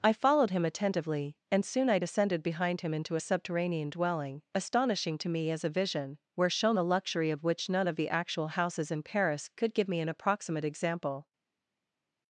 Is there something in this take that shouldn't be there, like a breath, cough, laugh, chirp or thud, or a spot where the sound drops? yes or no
no